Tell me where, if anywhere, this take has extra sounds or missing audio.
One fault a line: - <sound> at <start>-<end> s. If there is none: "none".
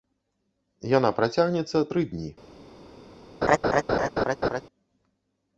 - laugh at 3.4-4.6 s